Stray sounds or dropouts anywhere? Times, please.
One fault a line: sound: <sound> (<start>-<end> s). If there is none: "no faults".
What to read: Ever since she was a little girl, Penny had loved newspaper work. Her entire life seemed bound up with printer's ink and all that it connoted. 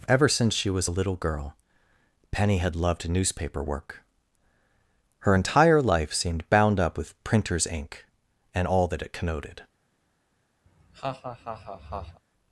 sound: laugh (10.7-12.2 s)